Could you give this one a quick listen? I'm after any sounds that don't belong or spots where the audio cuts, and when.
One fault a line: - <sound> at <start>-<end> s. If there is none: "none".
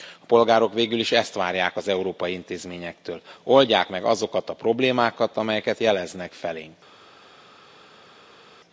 none